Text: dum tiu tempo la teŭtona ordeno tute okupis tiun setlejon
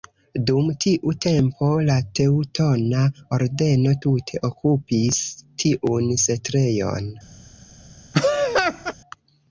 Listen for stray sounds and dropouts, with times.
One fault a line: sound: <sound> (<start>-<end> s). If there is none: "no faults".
sound: laugh (8.1-8.9 s)